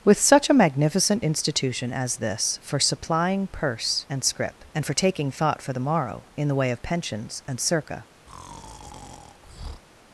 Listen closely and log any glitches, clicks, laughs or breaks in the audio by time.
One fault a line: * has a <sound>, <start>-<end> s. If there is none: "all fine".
* has a breath, 8.3-9.8 s